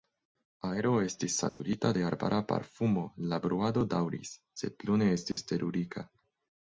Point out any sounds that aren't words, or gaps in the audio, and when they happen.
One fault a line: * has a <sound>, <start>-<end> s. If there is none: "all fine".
* has a dropout, 1.5-1.6 s
* has a dropout, 5.3-5.4 s